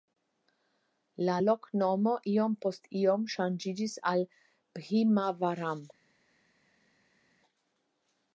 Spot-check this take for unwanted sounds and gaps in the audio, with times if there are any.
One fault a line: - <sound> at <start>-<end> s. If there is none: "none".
none